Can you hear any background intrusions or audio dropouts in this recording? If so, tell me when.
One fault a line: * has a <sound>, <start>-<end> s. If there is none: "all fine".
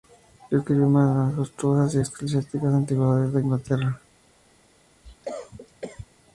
* has a cough, 5.0-6.1 s